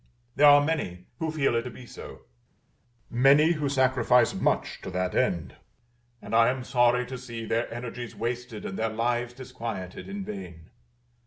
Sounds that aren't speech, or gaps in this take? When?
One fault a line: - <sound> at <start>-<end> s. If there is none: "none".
none